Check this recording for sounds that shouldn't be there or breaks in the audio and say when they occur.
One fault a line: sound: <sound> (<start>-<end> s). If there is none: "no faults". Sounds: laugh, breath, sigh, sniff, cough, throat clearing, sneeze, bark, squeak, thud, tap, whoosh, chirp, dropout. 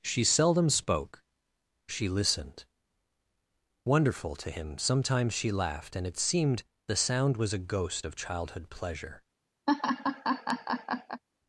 sound: laugh (9.7-11.2 s)